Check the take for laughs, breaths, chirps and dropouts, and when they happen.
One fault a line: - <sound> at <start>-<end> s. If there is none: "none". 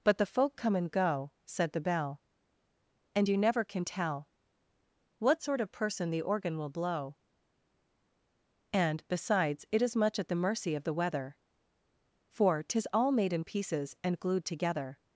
none